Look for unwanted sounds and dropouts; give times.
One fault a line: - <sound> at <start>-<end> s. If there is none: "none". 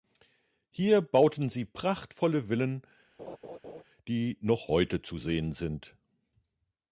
- laugh at 3.2-3.8 s